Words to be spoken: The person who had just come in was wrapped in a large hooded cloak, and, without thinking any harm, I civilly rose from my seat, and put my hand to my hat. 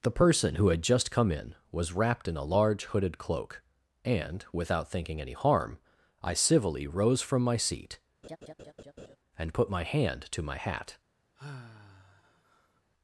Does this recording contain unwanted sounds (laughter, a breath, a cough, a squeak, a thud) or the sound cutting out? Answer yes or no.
yes